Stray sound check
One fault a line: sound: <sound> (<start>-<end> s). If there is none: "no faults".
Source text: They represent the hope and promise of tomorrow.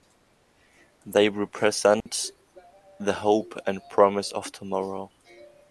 sound: dropout (2.0-2.1 s)